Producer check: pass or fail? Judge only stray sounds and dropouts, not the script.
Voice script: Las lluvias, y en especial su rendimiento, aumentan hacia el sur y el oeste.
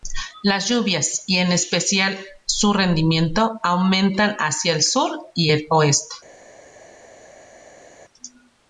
pass